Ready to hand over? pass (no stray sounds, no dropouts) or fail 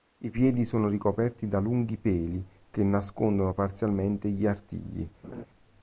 fail